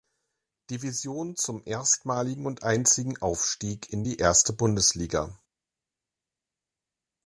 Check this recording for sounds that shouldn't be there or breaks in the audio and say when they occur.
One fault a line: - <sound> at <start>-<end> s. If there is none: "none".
none